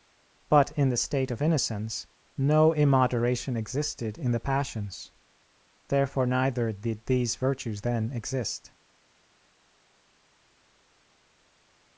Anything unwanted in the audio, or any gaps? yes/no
no